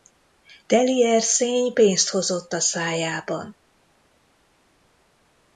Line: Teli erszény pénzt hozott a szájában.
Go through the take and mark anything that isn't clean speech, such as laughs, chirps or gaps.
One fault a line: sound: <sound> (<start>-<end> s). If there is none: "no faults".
no faults